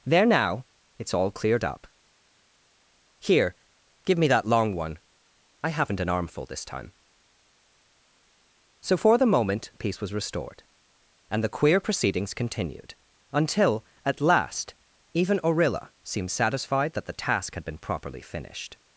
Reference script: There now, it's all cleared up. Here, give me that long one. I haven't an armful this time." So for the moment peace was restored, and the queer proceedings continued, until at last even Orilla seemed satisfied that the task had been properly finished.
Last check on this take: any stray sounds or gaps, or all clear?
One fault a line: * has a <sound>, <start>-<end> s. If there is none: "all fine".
all fine